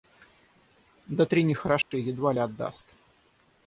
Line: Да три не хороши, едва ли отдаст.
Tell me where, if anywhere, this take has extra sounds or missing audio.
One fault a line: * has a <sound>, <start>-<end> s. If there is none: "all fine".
* has a dropout, 1.8-1.9 s